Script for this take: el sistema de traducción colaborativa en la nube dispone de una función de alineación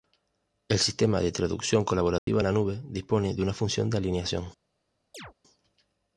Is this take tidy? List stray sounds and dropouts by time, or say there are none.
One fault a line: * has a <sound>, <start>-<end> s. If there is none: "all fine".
* has a dropout, 2.2-2.3 s
* has a chirp, 5.1-5.3 s